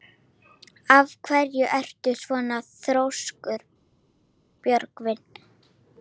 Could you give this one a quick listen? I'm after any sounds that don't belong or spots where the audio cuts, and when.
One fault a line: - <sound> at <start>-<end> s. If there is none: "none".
none